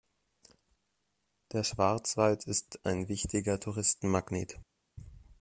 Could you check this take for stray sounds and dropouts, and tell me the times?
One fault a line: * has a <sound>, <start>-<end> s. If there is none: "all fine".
all fine